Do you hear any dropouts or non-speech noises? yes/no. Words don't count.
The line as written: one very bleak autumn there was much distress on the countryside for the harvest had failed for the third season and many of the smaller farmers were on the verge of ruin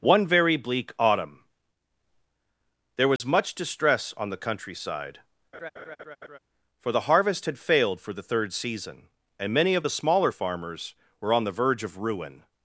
yes